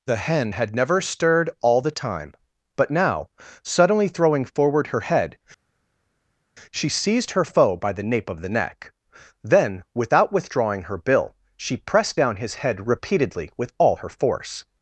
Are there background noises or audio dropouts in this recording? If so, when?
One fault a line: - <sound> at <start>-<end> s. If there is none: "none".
none